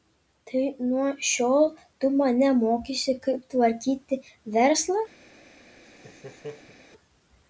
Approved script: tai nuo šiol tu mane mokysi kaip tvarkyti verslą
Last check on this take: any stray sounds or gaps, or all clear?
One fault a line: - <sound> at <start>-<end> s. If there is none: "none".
- laugh at 5.8-6.8 s